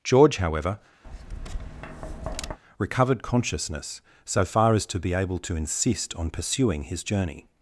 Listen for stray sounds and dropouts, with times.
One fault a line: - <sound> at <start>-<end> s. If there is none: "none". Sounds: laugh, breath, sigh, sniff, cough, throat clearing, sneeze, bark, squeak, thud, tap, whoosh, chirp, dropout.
- tap at 1.0-2.6 s